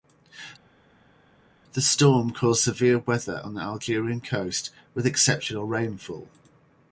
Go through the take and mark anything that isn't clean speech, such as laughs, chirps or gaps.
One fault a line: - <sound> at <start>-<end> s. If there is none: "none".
none